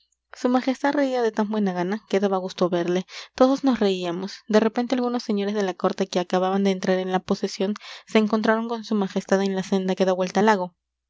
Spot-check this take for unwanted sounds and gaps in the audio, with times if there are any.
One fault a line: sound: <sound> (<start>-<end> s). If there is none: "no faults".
no faults